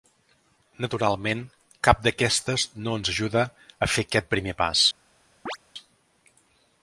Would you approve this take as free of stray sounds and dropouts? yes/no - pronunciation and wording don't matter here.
no